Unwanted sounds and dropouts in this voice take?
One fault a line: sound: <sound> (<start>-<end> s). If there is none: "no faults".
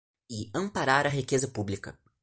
no faults